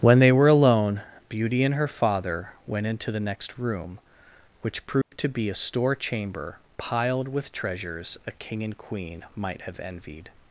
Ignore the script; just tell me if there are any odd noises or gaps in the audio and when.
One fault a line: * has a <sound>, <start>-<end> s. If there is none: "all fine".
* has a dropout, 5.0-5.1 s